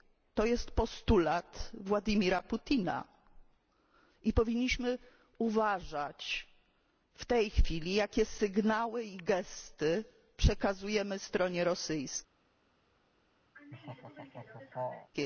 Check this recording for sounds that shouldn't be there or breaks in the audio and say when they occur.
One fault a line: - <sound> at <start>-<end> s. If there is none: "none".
- laugh at 13.5-15.1 s